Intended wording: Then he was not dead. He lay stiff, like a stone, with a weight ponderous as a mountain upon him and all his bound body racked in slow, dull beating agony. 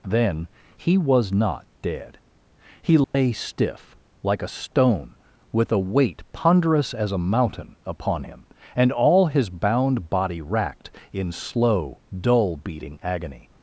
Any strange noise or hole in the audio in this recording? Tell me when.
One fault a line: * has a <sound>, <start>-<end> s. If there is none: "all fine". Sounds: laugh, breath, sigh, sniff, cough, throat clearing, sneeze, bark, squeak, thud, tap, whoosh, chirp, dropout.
* has a dropout, 3.0-3.1 s